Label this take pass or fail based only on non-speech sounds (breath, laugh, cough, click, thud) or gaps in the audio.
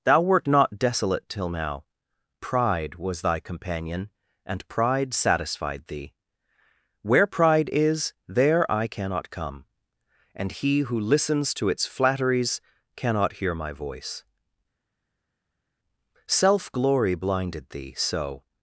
pass